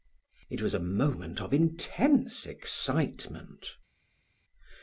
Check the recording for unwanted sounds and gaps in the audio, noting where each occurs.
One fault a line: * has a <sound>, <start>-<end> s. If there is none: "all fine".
all fine